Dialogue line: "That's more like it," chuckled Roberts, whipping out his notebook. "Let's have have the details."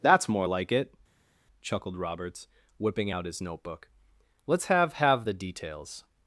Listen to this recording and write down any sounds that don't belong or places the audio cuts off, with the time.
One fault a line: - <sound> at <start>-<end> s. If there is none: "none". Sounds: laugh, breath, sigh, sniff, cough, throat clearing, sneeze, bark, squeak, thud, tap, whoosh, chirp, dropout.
none